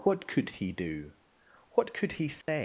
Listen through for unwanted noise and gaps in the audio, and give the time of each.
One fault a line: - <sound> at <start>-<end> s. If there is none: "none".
- dropout at 2.4-2.5 s